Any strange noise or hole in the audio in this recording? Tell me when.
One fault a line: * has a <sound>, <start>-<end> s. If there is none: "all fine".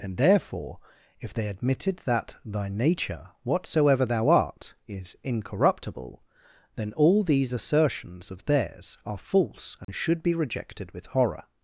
* has a dropout, 9.8-9.9 s